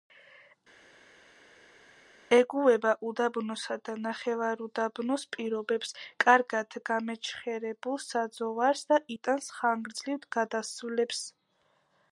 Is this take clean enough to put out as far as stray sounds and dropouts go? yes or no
yes